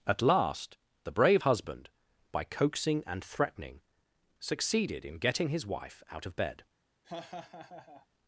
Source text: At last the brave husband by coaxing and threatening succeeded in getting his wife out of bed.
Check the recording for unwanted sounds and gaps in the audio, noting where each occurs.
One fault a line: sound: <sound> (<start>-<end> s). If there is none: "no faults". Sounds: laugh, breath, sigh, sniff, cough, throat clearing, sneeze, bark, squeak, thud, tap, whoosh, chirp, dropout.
sound: laugh (7.0-8.1 s)